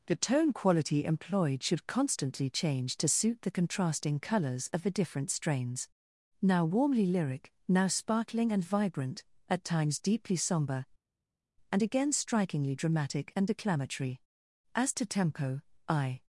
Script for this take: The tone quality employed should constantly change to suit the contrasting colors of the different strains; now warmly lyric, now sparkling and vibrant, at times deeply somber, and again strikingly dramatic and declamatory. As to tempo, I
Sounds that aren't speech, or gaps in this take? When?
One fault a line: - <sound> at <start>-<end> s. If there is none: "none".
none